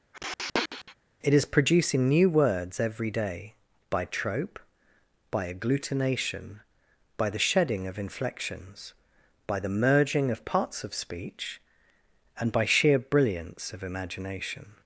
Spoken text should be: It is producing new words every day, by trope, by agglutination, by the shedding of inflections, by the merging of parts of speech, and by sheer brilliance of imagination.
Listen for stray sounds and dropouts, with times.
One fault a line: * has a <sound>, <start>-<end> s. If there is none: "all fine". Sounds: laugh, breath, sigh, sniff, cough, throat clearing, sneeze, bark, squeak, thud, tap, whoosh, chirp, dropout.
* has a sniff, 0.1-1.0 s